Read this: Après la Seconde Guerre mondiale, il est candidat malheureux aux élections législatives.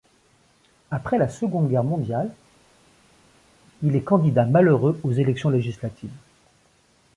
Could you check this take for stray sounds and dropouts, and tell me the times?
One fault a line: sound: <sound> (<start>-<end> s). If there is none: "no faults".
no faults